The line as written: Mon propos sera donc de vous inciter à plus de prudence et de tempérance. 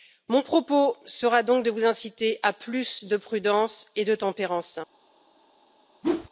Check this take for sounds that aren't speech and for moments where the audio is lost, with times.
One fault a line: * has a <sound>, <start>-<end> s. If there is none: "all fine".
* has a whoosh, 6.0-6.3 s